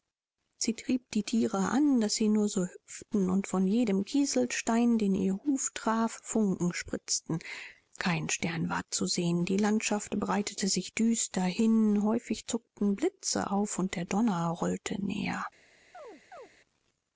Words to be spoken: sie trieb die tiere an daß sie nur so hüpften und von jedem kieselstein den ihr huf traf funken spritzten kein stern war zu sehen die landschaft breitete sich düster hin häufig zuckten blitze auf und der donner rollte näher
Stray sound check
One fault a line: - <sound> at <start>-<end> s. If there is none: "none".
- chirp at 15.9-16.5 s